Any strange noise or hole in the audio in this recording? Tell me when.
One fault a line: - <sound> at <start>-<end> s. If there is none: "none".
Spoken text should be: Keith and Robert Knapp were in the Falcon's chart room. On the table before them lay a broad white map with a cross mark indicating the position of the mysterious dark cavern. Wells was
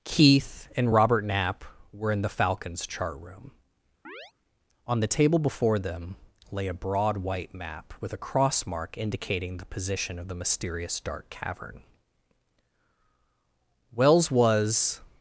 - chirp at 4.0-4.3 s